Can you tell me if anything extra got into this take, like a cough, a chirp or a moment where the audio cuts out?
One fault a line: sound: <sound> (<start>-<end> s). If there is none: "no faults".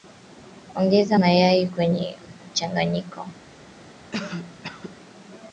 sound: cough (4.1-5.0 s)